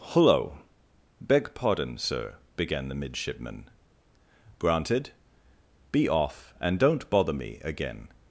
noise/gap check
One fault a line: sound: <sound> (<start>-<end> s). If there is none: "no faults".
no faults